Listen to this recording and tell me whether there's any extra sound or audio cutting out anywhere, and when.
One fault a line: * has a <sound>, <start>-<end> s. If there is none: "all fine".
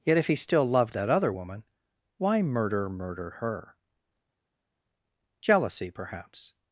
all fine